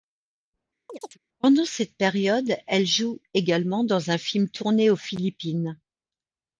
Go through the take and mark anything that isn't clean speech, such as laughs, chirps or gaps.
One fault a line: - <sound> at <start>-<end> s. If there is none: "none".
- chirp at 0.9-1.2 s